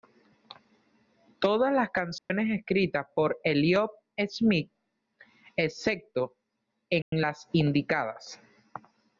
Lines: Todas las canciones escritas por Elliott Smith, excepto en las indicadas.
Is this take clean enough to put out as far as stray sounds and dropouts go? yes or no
no